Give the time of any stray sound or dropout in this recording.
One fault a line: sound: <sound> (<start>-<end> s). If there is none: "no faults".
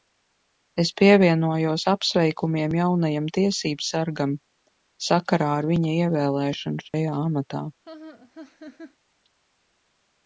sound: dropout (6.9-6.9 s)
sound: laugh (7.8-9.0 s)